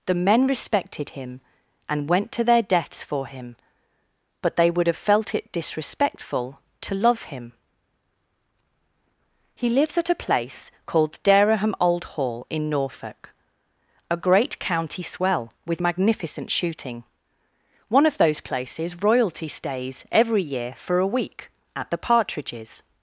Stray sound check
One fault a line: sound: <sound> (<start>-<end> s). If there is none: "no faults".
no faults